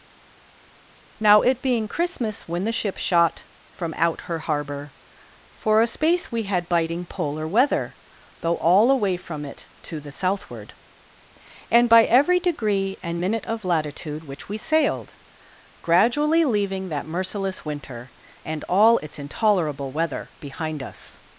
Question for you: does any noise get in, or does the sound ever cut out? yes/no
no